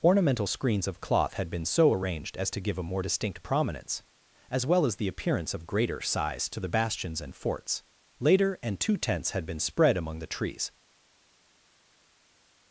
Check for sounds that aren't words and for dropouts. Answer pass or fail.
pass